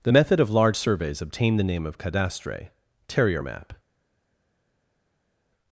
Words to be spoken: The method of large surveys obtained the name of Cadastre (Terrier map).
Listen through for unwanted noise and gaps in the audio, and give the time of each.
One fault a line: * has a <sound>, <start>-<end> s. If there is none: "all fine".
all fine